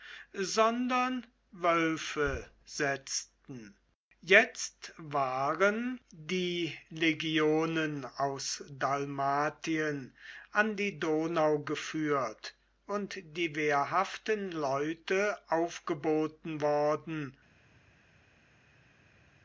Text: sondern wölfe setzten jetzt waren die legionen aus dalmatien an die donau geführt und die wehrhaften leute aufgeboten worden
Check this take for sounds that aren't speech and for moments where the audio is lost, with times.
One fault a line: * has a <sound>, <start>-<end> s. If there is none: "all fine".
all fine